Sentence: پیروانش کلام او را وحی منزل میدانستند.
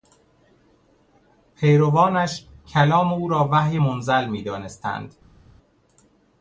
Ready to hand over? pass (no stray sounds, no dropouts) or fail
pass